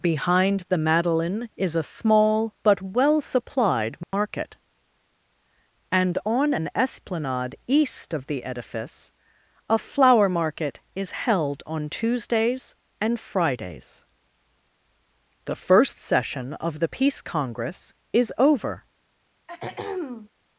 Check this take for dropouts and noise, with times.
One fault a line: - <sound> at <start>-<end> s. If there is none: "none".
- dropout at 4.0-4.1 s
- throat clearing at 19.5-20.3 s